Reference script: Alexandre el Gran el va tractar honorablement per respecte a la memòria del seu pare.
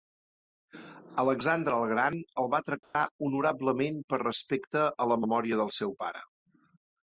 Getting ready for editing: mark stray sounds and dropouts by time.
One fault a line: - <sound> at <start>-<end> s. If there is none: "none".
- dropout at 2.8-2.9 s